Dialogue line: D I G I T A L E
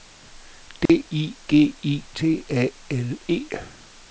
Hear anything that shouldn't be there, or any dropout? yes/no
yes